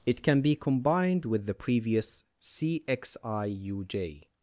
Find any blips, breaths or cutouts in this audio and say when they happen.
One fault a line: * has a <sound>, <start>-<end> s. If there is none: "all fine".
all fine